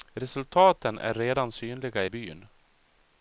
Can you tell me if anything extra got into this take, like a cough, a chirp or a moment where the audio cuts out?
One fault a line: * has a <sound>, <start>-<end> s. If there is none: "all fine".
all fine